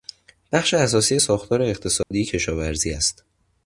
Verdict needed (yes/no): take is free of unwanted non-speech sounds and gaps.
no